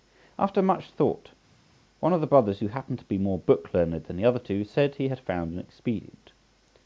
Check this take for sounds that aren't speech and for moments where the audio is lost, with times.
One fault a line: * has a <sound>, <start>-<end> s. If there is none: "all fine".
all fine